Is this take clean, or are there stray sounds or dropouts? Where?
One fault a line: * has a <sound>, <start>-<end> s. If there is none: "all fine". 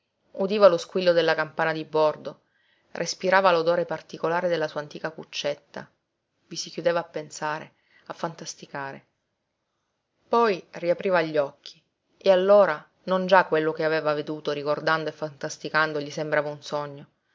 all fine